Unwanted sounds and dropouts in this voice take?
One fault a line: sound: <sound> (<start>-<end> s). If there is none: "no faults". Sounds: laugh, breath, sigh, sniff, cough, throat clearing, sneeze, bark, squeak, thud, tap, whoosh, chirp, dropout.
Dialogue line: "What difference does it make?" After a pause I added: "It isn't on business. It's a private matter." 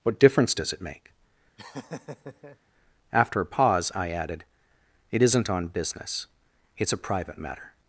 sound: laugh (1.6-2.6 s)